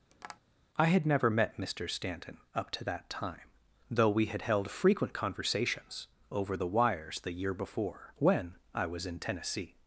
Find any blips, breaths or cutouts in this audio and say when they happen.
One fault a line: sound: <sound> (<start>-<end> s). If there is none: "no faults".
sound: tap (0.1-0.4 s)